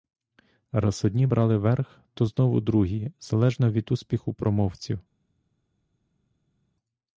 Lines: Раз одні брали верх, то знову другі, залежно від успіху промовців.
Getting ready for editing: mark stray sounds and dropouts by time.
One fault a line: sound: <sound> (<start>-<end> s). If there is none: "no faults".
no faults